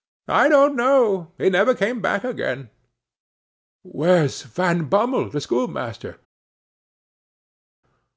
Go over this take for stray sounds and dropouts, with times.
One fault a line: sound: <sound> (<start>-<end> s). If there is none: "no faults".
no faults